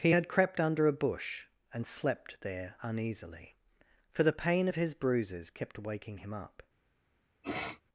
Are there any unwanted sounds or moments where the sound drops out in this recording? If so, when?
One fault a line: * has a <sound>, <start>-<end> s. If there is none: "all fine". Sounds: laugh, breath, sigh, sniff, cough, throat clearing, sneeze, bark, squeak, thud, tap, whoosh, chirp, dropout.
* has a sniff, 7.4-7.8 s